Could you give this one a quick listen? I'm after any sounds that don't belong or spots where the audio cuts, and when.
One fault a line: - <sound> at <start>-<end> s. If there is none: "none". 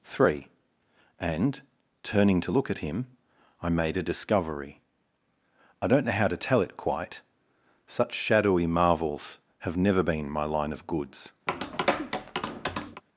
- tap at 11.5-13.0 s